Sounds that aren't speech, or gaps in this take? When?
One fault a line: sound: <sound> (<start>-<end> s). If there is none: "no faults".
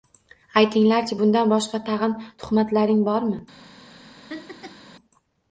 sound: laugh (4.3-4.9 s)